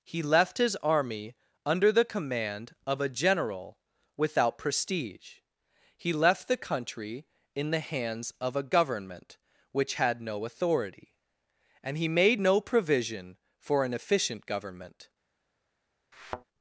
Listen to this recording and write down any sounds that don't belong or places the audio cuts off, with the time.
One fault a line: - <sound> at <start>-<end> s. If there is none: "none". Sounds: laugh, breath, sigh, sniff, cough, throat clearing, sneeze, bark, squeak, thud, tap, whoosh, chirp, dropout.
- thud at 16.1-16.4 s